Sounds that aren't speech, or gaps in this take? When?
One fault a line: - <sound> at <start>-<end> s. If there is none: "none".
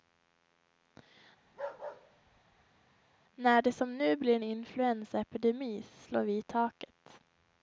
- bark at 1.4-2.8 s